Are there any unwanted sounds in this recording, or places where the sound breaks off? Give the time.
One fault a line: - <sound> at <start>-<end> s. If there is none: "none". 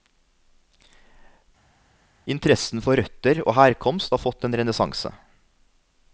none